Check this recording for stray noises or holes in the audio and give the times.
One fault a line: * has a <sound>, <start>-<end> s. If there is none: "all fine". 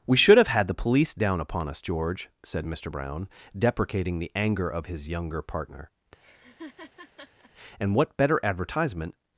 * has a laugh, 6.2-7.5 s